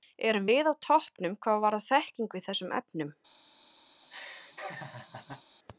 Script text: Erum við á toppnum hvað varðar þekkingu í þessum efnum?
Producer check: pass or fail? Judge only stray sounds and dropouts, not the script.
fail